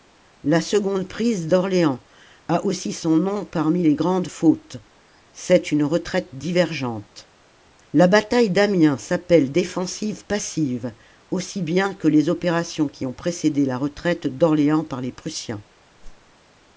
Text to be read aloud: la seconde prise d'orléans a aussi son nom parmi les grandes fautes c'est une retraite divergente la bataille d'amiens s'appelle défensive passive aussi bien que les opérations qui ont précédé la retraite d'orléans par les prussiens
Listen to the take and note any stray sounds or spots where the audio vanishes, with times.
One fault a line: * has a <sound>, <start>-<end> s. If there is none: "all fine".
* has a whoosh, 16.0-16.3 s